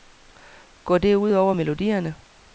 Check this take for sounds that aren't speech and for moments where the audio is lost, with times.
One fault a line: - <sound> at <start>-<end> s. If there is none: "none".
none